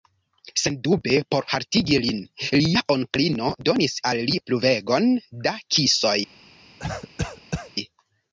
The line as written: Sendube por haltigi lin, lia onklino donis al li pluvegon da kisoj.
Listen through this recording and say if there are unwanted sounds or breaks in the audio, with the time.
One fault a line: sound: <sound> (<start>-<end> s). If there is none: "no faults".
sound: cough (6.8-7.7 s)